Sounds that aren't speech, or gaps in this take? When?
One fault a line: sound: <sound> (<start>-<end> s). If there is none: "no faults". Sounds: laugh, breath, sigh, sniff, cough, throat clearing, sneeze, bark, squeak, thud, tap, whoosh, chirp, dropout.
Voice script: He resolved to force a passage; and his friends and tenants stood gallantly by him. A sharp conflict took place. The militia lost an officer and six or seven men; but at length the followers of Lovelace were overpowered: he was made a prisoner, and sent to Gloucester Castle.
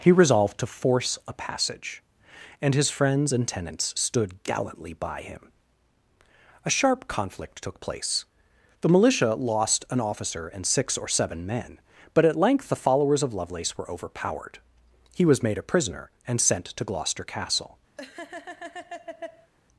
sound: laugh (18.0-19.5 s)